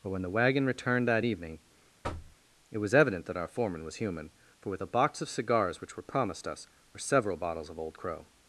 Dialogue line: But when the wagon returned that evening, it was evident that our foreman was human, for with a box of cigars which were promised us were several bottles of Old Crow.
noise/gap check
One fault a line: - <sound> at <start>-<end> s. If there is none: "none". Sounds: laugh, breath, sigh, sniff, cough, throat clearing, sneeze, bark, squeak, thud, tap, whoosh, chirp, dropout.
- thud at 2.0-2.4 s